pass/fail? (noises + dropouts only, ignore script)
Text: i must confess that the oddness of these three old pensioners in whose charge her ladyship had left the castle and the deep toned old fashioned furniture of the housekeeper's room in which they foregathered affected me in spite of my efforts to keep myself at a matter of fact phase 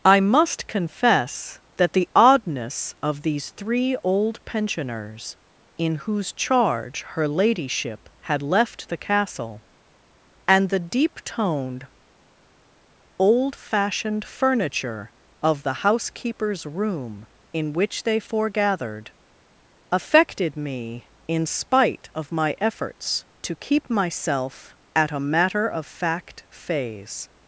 pass